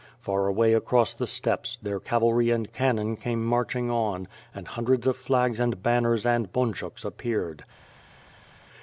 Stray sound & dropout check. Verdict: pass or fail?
pass